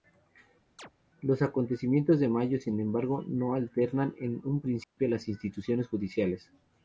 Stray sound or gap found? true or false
true